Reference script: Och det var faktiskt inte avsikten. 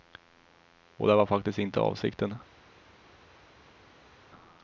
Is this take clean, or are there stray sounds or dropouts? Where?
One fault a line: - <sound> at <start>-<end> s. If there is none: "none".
none